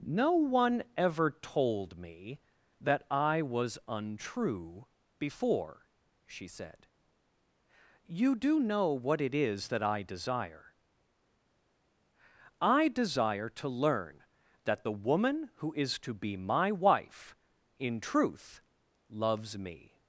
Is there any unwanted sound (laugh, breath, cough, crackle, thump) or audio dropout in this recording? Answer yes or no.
no